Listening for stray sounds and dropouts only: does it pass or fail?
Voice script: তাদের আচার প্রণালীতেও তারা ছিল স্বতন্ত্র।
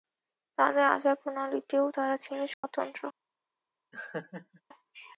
fail